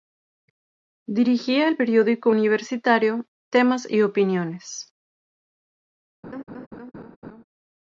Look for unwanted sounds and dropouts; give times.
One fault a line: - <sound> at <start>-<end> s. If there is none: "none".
- laugh at 6.2-7.4 s